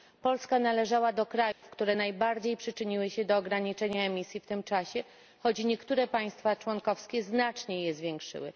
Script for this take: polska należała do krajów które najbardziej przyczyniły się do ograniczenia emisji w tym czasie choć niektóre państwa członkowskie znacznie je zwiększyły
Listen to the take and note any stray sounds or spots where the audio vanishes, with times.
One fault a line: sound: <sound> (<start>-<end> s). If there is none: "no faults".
sound: dropout (1.5-1.6 s)